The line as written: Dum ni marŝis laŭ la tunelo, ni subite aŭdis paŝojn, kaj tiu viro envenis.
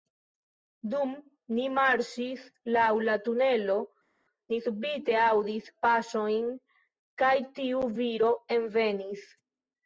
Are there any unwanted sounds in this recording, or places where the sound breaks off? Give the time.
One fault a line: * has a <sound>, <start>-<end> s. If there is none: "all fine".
all fine